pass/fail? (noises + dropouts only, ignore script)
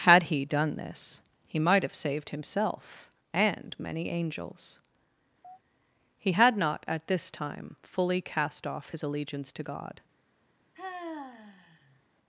fail